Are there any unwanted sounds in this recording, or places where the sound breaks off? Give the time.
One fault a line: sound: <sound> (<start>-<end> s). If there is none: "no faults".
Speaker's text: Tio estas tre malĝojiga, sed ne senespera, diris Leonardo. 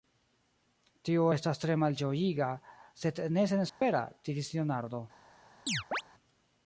sound: dropout (3.7-3.8 s)
sound: chirp (5.7-6.0 s)